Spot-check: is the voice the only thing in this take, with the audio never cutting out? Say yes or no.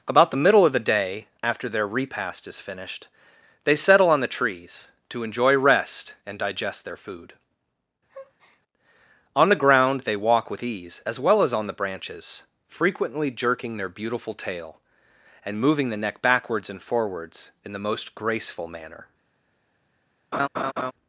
no